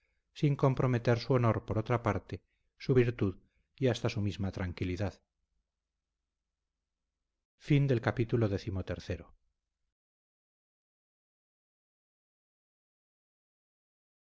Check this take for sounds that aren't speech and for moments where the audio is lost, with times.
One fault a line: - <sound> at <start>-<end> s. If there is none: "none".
none